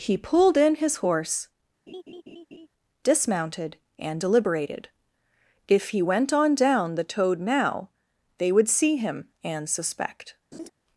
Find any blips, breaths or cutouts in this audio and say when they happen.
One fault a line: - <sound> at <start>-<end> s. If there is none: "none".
- laugh at 1.9-2.7 s
- laugh at 10.5-10.7 s